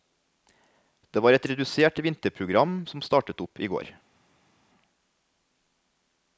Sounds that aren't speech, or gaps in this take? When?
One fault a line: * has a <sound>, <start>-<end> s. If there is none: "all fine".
all fine